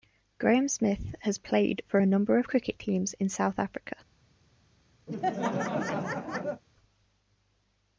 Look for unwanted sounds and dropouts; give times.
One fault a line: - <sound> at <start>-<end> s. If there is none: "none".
- laugh at 5.1-6.6 s